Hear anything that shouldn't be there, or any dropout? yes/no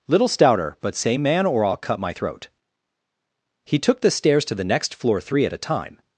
no